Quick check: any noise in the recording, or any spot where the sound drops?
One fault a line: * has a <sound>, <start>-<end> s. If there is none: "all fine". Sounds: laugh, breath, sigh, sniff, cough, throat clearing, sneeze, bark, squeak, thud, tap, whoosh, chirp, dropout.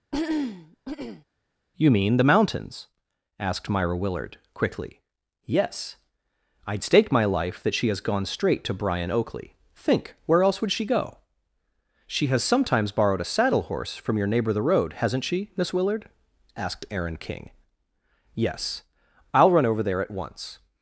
* has a throat clearing, 0.1-1.2 s